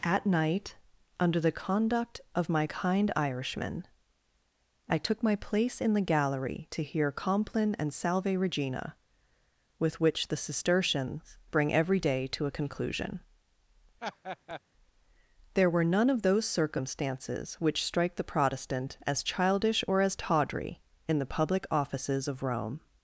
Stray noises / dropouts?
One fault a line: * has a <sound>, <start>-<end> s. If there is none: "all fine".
* has a laugh, 14.0-14.6 s